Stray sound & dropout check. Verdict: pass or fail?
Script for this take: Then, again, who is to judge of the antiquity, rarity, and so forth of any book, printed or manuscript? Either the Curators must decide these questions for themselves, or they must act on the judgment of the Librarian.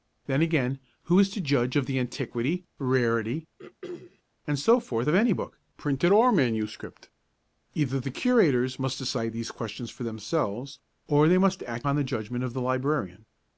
fail